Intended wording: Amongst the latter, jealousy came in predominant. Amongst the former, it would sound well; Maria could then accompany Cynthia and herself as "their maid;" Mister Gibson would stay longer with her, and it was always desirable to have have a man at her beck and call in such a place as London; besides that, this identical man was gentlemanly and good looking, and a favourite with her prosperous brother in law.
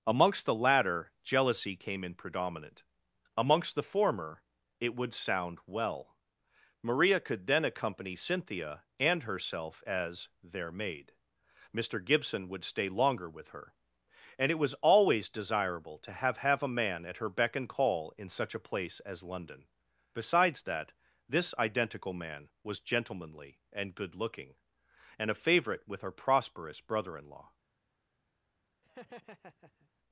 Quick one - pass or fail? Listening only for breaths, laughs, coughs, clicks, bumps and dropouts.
fail